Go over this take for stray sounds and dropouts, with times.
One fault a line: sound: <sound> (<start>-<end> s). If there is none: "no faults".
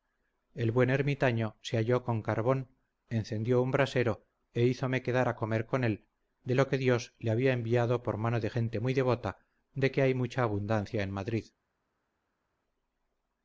no faults